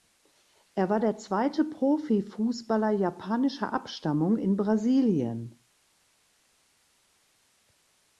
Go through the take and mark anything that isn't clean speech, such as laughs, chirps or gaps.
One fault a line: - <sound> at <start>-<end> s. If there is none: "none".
none